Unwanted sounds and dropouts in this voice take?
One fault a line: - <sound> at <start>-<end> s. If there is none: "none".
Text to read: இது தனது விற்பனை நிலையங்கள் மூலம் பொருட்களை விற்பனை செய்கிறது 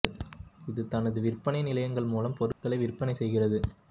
- dropout at 2.5-2.6 s